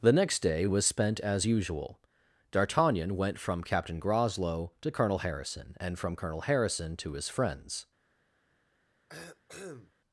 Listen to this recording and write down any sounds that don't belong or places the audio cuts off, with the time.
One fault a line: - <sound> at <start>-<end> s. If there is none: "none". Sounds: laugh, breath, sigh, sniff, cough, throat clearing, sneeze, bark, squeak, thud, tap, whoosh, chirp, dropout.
- cough at 9.1-9.9 s